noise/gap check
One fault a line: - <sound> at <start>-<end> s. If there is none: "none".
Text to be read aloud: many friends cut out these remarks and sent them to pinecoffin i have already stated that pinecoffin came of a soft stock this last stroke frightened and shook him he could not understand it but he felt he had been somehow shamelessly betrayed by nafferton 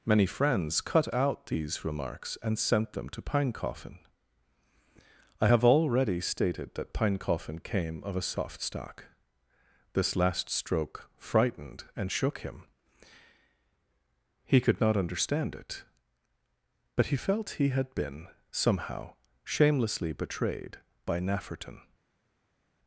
none